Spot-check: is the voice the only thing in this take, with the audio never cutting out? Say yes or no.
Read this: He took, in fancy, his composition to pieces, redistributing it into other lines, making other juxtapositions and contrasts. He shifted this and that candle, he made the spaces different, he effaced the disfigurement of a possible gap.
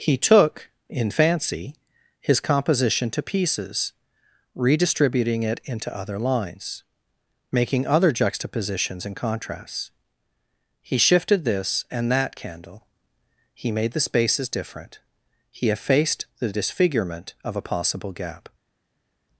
yes